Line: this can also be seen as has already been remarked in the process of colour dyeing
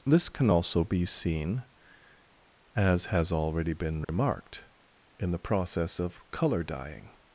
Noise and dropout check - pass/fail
fail